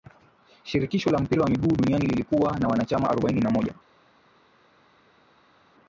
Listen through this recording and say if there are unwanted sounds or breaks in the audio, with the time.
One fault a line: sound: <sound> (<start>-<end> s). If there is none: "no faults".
no faults